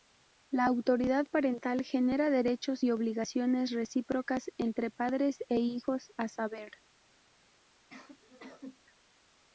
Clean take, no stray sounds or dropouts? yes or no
no